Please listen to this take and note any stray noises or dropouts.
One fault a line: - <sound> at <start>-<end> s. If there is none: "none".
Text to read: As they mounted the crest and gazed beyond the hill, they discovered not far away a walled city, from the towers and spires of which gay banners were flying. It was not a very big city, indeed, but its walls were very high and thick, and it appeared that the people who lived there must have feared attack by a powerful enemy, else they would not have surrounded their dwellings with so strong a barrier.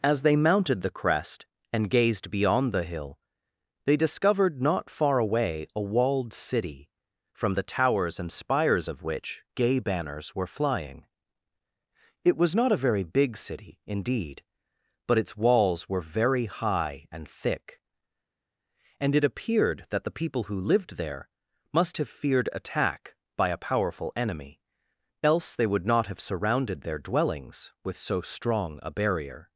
none